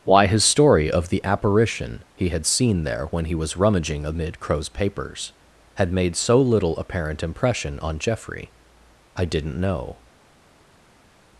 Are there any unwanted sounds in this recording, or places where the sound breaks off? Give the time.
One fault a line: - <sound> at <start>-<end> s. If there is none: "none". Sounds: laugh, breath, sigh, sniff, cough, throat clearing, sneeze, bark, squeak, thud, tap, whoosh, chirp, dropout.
none